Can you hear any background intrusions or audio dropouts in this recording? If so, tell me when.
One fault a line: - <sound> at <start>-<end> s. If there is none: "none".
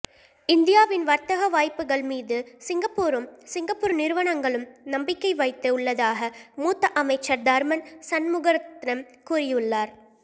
none